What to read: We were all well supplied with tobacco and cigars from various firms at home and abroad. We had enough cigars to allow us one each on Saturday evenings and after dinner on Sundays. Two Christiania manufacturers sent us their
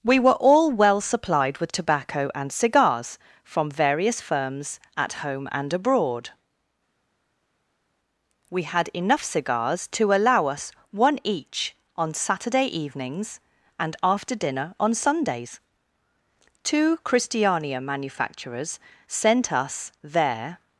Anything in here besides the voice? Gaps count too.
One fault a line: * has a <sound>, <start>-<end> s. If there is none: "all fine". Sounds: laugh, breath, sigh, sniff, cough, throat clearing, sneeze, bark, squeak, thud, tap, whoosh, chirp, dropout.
all fine